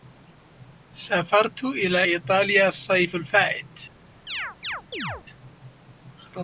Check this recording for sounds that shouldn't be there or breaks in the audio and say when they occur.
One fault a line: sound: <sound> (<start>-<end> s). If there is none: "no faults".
sound: chirp (4.3-5.2 s)